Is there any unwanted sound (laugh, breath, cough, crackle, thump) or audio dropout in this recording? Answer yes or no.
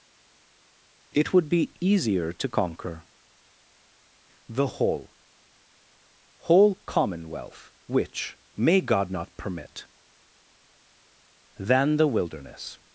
no